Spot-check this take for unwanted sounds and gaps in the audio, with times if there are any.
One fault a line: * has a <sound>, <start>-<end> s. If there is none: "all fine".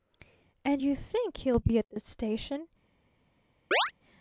* has a chirp, 3.7-3.9 s